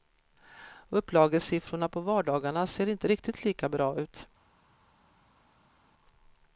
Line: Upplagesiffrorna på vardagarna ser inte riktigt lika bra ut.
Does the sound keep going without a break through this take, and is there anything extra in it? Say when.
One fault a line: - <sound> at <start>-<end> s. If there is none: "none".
none